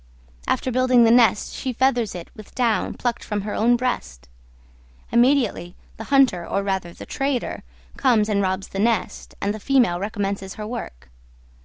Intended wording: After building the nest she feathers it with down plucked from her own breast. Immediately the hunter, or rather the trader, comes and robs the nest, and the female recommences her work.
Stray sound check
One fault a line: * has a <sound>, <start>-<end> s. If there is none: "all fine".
all fine